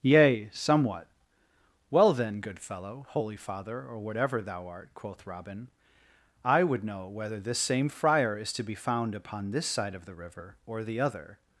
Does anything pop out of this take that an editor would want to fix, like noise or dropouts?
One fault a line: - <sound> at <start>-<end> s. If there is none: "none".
none